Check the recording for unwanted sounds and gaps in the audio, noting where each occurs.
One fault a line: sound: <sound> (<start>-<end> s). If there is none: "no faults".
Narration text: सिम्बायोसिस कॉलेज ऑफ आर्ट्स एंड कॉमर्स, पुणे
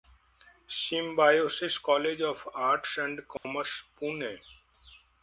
sound: dropout (3.4-3.4 s)